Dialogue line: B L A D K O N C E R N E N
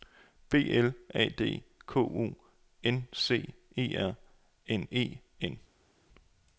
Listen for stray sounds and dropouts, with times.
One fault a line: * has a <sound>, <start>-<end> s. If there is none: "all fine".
all fine